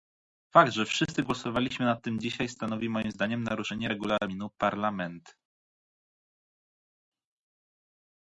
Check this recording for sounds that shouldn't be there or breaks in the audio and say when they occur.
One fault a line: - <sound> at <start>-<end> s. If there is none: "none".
none